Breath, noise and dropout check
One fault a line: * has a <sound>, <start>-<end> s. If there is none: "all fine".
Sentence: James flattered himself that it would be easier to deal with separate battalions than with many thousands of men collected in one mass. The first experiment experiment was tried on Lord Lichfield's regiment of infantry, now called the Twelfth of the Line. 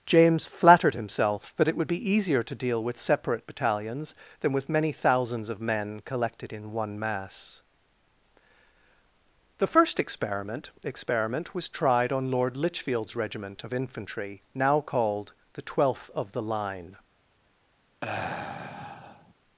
* has a sigh, 18.0-19.3 s